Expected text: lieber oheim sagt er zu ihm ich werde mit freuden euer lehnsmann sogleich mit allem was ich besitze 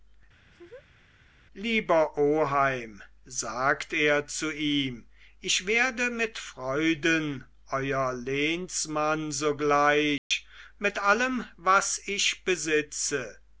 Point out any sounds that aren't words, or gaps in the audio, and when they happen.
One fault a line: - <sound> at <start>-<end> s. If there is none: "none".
- laugh at 0.4-1.1 s
- dropout at 10.2-10.3 s